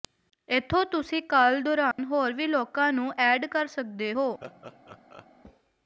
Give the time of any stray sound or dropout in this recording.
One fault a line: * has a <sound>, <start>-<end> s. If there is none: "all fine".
* has a dropout, 1.9-2.0 s
* has a laugh, 4.4-5.3 s